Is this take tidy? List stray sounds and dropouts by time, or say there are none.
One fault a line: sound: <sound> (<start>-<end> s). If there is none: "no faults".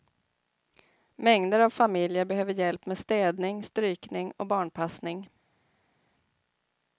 no faults